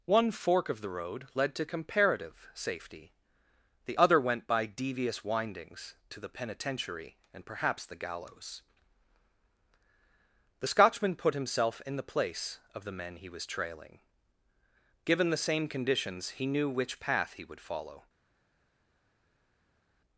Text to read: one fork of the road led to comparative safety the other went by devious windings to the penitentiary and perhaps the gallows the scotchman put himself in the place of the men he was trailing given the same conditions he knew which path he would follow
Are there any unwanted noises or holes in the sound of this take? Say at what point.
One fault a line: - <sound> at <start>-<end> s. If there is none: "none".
none